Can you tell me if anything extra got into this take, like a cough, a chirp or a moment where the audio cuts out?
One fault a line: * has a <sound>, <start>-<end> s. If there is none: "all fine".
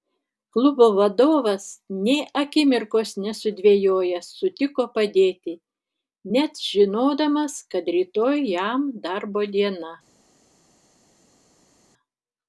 all fine